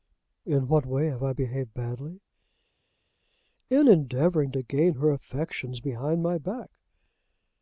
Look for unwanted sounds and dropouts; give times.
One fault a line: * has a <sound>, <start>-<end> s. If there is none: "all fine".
all fine